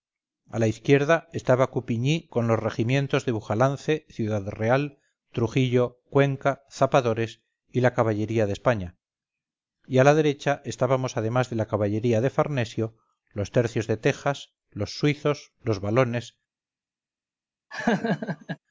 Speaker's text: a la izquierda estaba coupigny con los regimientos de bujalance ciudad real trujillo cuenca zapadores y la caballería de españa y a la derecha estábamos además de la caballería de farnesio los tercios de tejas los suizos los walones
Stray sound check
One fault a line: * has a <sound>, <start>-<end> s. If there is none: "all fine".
* has a laugh, 17.7-18.6 s